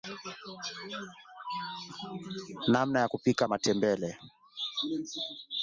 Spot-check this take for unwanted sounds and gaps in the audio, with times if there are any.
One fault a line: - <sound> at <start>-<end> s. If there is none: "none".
none